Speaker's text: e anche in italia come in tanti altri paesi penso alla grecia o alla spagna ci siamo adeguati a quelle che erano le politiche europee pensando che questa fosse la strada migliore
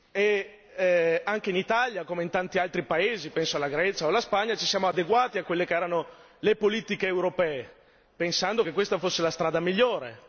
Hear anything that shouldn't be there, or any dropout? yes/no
no